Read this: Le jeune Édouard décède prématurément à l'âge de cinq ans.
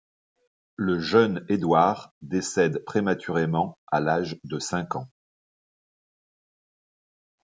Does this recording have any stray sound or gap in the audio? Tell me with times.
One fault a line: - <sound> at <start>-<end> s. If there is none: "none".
none